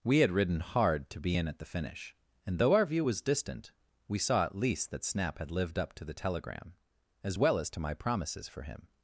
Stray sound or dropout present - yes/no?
no